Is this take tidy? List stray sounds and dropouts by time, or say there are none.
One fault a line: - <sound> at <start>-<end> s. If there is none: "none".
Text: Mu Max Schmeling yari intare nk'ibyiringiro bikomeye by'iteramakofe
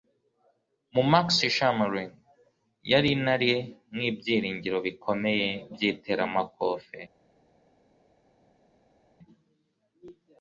none